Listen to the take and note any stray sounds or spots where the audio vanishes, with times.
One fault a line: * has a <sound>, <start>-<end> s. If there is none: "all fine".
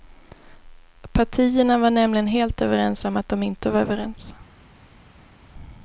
all fine